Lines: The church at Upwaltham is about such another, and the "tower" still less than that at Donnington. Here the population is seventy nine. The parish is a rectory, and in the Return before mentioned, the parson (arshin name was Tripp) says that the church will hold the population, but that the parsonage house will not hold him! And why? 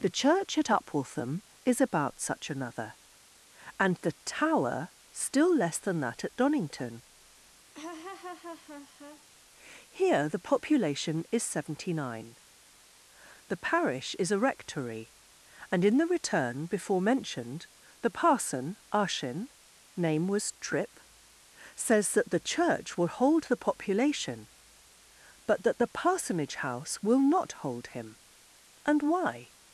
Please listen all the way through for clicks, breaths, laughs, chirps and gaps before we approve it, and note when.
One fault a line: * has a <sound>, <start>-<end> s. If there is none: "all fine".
* has a laugh, 7.7-9.3 s